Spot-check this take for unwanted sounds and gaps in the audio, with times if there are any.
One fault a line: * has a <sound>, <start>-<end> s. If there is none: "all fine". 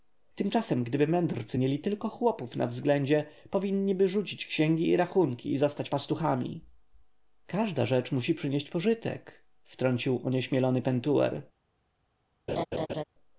* has a laugh, 12.5-13.0 s